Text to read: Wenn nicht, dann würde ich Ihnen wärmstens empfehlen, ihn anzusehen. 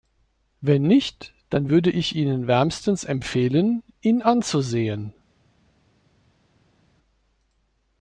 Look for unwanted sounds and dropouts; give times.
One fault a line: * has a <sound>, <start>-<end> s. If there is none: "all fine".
all fine